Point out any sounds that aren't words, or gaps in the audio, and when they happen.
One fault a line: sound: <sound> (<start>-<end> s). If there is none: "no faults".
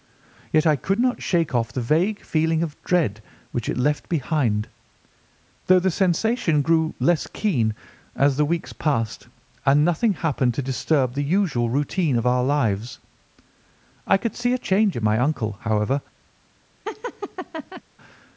sound: laugh (16.9-17.8 s)